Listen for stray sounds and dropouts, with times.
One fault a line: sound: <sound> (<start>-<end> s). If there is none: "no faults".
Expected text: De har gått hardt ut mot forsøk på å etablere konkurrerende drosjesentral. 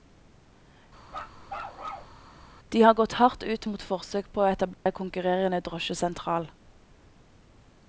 sound: bark (1.1-2.2 s)
sound: dropout (4.7-4.9 s)